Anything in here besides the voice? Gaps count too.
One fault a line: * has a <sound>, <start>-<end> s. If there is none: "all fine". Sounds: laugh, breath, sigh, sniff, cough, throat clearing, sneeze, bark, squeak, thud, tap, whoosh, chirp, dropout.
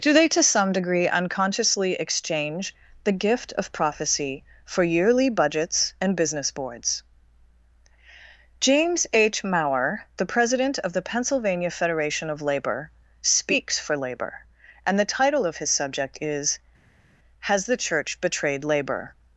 all fine